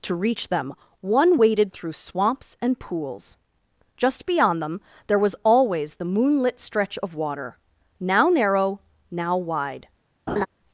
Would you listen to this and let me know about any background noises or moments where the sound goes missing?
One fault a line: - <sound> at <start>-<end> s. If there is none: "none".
- laugh at 10.3-10.5 s